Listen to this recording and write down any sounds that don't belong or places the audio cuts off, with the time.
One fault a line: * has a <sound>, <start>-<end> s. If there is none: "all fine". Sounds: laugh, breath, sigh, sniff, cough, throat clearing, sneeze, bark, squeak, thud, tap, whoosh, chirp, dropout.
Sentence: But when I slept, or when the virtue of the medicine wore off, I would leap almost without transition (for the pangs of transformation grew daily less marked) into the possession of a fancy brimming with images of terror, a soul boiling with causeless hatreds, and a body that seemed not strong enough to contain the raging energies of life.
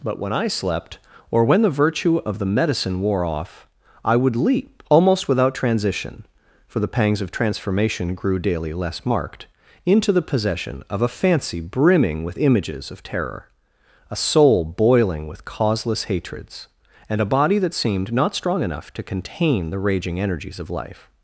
all fine